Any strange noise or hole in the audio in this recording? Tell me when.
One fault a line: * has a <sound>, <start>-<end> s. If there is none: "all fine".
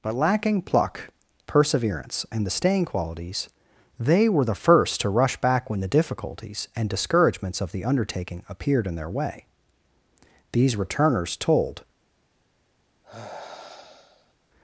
* has a sigh, 13.0-14.3 s